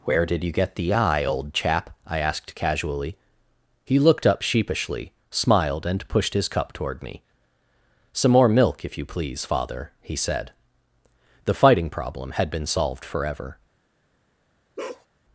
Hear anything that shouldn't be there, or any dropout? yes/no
yes